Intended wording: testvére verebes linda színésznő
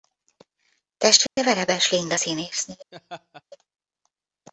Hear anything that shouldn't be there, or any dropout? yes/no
yes